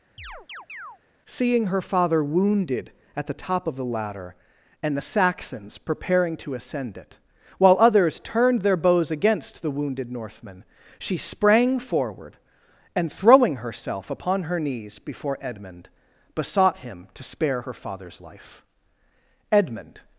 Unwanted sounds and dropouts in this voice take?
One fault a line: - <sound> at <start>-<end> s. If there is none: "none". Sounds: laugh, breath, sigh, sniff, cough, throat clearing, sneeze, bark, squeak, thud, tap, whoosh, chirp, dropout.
- chirp at 0.2-1.0 s